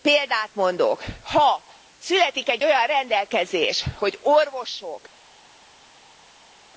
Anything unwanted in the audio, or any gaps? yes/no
no